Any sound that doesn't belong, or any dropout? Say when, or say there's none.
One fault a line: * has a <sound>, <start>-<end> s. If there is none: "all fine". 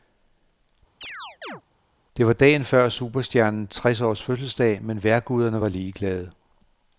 * has a chirp, 1.0-1.6 s